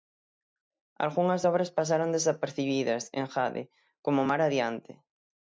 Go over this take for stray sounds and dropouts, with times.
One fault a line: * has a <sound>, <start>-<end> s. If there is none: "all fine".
all fine